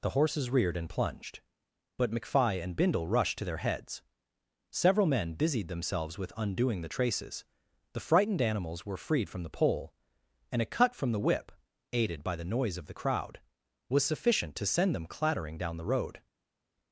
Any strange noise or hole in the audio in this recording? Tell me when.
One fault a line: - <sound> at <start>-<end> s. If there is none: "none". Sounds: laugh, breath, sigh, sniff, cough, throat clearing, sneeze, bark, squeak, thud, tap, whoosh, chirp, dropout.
none